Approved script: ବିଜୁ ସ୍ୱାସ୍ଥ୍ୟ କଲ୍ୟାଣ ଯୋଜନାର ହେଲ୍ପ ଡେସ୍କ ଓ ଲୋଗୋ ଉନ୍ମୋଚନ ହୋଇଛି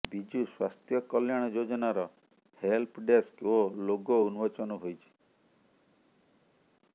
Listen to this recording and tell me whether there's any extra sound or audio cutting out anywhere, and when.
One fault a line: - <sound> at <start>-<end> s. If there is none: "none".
none